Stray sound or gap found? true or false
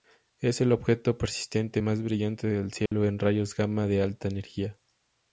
true